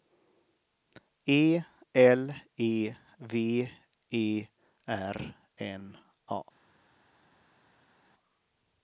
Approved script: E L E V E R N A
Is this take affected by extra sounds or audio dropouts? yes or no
no